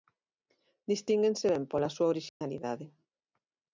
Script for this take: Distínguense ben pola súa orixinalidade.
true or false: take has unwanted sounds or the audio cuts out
true